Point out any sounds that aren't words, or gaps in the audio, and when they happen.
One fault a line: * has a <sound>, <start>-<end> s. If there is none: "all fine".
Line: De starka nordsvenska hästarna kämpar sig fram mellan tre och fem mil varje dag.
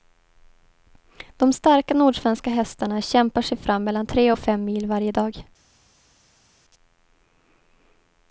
all fine